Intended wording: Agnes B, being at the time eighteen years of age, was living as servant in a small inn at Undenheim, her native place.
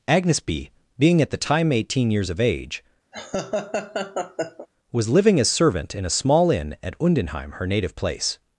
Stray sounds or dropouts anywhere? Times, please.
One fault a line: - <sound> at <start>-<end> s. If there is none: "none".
- laugh at 3.1-4.7 s